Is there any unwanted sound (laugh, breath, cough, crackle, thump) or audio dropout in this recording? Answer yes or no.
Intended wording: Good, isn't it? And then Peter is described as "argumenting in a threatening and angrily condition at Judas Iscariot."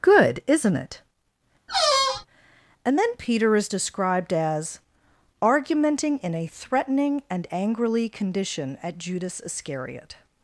yes